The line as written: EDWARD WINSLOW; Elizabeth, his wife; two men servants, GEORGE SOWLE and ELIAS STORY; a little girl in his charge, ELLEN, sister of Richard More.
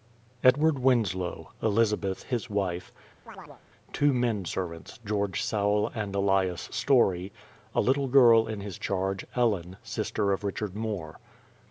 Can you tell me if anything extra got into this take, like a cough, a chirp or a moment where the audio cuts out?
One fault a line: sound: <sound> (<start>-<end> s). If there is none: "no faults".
sound: chirp (3.3-3.6 s)